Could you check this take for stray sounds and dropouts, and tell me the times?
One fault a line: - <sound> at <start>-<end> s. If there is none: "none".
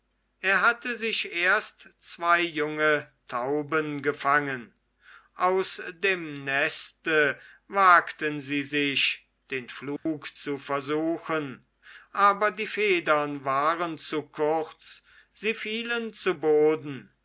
- dropout at 10.0-10.1 s